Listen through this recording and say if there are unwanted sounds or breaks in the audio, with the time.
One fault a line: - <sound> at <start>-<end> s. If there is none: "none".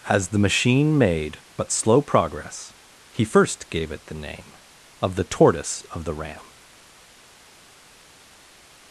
none